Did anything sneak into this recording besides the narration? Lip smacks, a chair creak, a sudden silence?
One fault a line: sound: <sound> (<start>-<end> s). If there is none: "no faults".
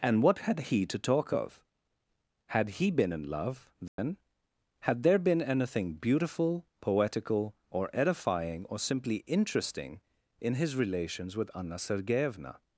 sound: dropout (3.9-4.0 s)